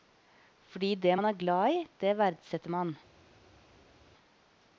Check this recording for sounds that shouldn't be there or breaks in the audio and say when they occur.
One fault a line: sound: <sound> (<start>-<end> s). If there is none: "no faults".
no faults